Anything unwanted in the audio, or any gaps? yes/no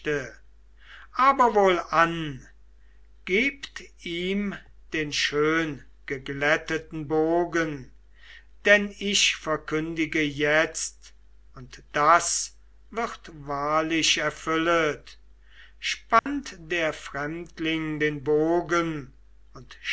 yes